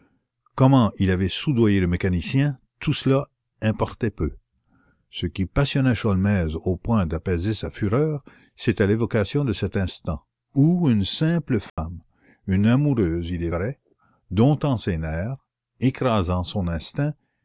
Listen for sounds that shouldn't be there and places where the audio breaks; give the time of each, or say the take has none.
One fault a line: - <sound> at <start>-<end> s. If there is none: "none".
- dropout at 11.7-11.8 s